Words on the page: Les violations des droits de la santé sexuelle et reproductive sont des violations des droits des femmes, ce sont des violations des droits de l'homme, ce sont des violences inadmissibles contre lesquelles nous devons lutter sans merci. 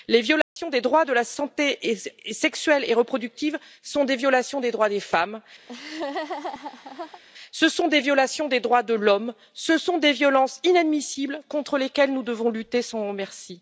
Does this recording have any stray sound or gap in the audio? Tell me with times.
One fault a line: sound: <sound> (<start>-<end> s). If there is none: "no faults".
sound: dropout (0.4-0.6 s)
sound: laugh (5.7-7.2 s)